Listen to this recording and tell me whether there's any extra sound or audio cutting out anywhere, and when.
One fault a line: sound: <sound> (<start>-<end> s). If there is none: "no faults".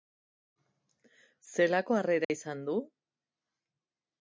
sound: dropout (2.2-2.3 s)